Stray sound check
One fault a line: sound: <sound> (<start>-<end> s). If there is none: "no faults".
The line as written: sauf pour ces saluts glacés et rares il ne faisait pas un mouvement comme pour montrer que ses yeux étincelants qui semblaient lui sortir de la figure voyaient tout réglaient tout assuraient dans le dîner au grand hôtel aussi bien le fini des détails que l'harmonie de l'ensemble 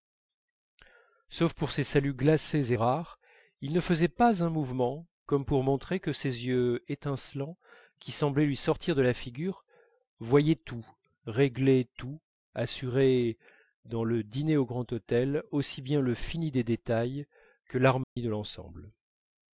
sound: dropout (18.0-18.2 s)